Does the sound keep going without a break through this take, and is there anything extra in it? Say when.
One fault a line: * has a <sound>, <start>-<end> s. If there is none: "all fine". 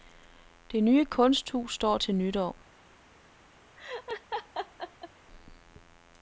* has a laugh, 3.8-5.1 s